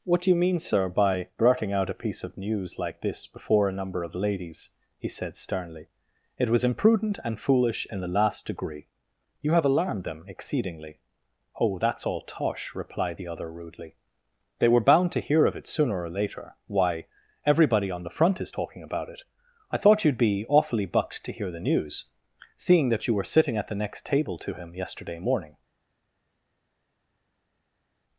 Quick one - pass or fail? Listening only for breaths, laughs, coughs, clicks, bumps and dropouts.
pass